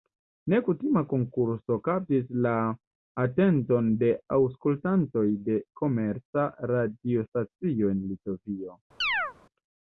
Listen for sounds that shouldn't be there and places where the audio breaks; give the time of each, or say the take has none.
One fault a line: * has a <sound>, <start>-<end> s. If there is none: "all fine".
* has a chirp, 9.0-9.3 s